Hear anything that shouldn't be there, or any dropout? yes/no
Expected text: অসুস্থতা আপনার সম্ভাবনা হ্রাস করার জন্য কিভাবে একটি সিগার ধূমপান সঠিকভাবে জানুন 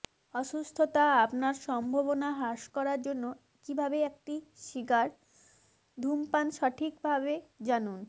no